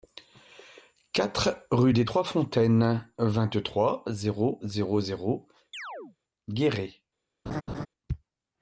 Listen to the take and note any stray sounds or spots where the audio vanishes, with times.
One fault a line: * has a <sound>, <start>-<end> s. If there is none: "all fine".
* has a chirp, 5.7-6.2 s
* has a laugh, 7.5-7.9 s